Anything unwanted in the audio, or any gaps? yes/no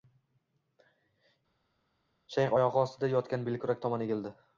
no